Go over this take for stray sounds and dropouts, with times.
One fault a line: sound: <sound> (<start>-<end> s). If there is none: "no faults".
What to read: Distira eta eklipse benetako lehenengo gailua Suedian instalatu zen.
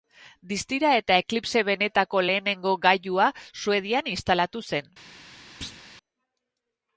sound: thud (5.6-5.8 s)